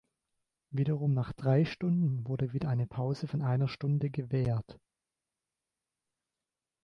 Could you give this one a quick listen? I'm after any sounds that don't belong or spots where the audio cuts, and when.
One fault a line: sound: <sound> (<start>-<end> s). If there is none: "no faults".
no faults